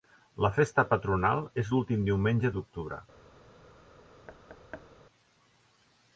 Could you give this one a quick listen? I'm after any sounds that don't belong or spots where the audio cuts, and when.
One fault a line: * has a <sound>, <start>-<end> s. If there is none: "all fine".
* has a thud, 4.3-4.9 s